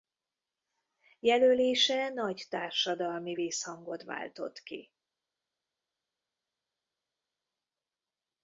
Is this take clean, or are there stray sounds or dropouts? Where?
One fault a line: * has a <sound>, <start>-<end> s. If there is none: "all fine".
all fine